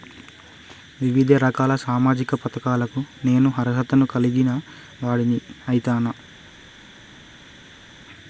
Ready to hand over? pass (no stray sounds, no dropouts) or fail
pass